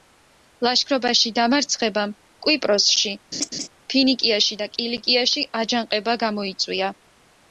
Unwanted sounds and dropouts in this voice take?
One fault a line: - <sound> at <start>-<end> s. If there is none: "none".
- laugh at 3.3-3.7 s